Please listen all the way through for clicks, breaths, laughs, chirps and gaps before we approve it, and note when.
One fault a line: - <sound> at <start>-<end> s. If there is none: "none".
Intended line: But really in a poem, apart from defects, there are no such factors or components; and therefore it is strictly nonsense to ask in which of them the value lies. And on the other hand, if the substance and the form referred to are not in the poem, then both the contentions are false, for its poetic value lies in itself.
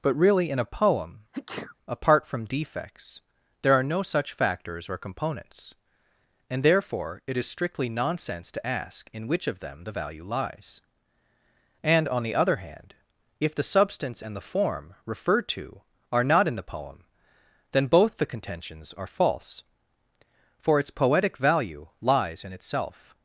- sneeze at 1.3-1.8 s